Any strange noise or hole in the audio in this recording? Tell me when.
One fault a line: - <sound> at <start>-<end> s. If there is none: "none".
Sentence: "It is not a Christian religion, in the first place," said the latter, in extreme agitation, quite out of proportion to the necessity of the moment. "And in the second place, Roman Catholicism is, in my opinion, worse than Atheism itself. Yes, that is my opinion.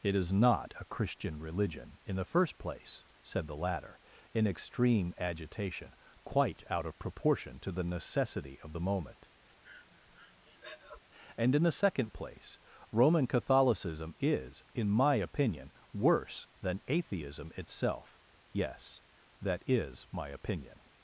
- breath at 9.6-11.0 s